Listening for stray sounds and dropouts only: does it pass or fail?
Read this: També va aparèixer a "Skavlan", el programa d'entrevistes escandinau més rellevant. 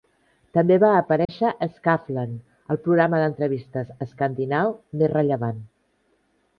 fail